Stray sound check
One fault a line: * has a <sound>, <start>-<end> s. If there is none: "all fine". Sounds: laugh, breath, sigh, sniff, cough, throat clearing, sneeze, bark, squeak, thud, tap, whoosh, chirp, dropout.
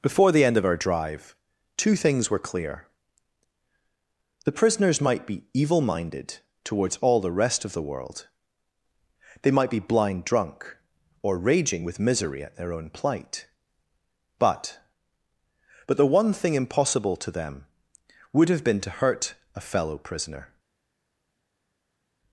all fine